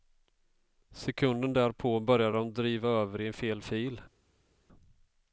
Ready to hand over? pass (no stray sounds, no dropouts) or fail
pass